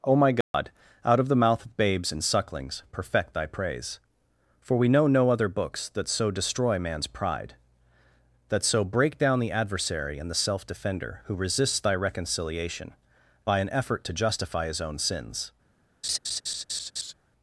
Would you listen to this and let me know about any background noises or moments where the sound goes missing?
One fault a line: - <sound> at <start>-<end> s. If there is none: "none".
- dropout at 0.4-0.5 s
- laugh at 16.0-17.1 s